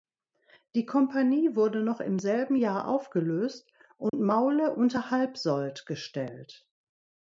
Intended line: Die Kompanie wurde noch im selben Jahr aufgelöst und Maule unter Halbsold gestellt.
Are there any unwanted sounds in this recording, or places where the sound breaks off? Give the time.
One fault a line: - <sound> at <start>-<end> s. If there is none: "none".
- dropout at 4.1-4.1 s